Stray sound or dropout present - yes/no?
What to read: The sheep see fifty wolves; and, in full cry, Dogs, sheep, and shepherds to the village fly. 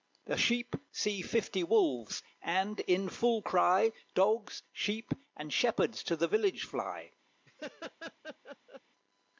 yes